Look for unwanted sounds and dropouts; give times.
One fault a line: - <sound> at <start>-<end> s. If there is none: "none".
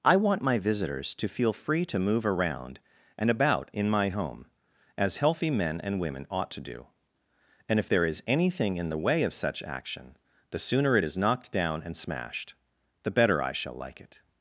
none